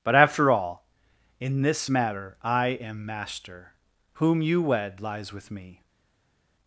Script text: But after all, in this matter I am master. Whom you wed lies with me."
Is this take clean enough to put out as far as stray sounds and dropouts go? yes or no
yes